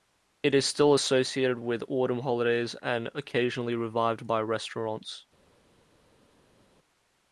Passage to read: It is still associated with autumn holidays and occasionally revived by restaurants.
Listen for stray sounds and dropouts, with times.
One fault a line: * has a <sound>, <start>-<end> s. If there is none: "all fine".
all fine